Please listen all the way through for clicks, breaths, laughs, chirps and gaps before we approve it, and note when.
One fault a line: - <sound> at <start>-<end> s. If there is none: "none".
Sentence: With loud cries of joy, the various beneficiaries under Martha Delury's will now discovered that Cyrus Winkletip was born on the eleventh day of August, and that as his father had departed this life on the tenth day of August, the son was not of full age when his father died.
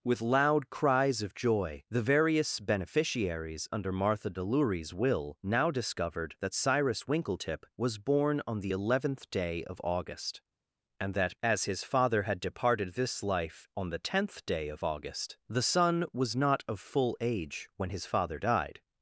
none